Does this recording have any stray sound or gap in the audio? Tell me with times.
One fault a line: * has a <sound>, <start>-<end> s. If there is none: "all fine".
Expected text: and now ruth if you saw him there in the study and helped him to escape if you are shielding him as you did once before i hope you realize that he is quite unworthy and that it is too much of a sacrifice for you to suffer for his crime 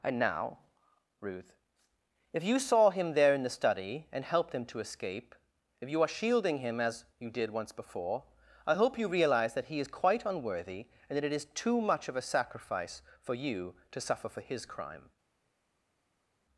all fine